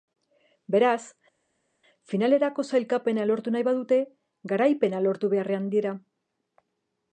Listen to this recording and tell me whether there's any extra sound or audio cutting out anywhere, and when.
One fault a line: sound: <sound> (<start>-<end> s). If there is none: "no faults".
no faults